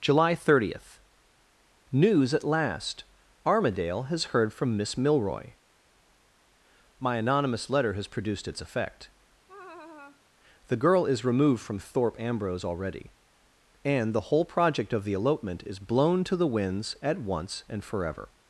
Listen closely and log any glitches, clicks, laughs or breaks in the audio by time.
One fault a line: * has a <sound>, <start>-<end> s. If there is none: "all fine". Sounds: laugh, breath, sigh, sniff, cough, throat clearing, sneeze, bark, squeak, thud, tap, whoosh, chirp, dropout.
* has a laugh, 9.5-10.2 s